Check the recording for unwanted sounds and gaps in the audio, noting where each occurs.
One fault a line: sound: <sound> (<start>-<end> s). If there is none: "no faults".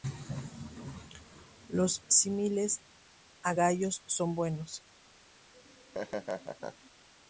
sound: laugh (5.5-6.9 s)